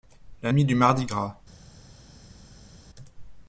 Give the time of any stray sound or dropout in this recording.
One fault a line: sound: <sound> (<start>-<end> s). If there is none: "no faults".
no faults